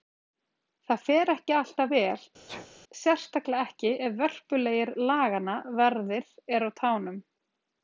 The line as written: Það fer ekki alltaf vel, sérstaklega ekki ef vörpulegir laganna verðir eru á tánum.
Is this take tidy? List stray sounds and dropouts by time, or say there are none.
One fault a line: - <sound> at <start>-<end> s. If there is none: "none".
- sneeze at 2.5-2.7 s